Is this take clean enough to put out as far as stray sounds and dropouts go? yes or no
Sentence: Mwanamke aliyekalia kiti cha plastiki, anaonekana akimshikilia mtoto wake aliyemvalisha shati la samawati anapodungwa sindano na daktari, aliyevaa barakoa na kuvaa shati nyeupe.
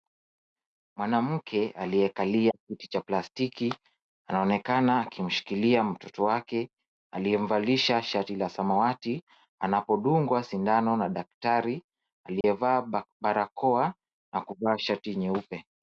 no